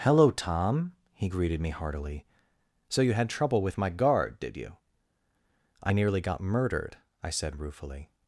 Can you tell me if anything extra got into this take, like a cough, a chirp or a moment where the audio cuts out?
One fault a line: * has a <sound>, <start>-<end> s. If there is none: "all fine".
all fine